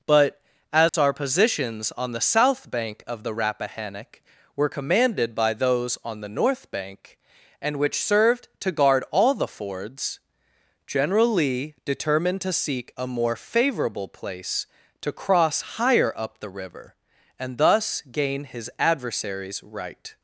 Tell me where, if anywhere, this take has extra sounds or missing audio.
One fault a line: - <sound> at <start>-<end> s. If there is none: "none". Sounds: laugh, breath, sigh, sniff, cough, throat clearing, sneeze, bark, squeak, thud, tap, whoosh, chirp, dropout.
- dropout at 0.9-0.9 s